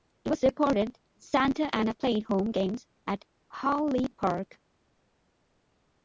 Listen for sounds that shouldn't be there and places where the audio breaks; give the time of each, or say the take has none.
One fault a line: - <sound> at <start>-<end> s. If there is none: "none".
none